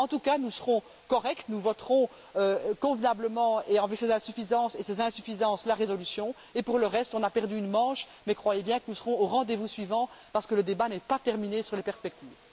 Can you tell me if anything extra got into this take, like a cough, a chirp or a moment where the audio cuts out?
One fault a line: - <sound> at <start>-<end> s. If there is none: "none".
none